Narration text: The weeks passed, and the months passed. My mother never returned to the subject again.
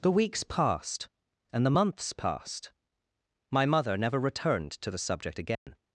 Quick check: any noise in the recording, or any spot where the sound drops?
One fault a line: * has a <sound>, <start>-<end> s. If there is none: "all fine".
* has a dropout, 5.5-5.7 s